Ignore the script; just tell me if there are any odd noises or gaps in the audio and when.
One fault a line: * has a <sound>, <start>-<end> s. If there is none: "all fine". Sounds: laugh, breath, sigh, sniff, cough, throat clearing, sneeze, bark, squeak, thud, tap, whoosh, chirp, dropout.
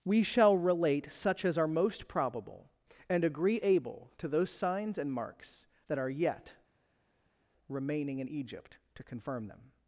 all fine